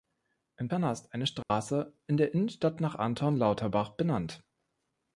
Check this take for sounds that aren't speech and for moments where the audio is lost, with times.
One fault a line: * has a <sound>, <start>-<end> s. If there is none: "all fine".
* has a dropout, 1.4-1.5 s